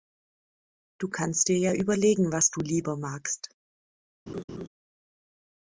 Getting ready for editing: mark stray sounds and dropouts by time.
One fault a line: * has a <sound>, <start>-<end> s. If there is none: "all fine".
* has a laugh, 4.3-4.7 s